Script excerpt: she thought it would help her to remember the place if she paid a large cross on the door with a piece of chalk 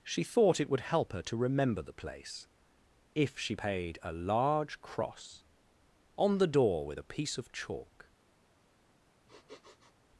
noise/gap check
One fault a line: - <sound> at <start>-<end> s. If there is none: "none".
- sniff at 9.3-10.0 s